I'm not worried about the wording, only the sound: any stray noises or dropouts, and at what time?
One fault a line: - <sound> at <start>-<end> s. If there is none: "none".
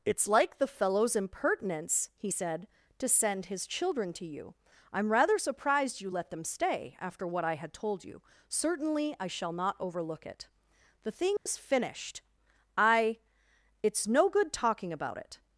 - dropout at 11.4-11.5 s